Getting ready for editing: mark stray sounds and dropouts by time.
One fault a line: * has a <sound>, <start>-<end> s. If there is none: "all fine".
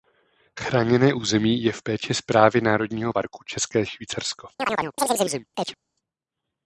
* has a chirp, 4.6-5.8 s